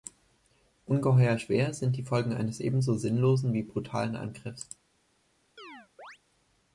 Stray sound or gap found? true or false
true